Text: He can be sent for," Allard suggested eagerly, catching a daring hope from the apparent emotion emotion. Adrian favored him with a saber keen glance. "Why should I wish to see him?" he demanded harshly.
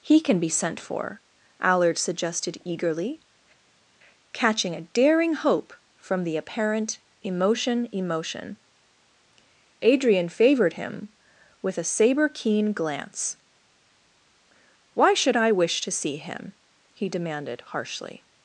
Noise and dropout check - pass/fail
pass